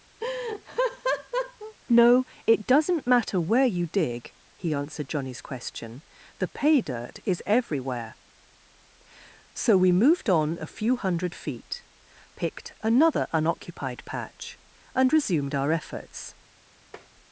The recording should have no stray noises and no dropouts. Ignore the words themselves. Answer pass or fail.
fail